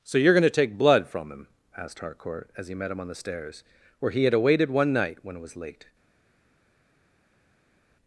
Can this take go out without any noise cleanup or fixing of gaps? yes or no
yes